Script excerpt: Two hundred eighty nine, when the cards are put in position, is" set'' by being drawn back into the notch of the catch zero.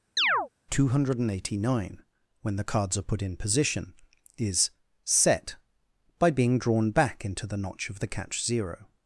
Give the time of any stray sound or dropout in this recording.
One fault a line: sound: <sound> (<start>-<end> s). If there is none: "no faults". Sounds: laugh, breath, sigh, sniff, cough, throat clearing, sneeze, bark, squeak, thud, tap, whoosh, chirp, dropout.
sound: chirp (0.2-0.5 s)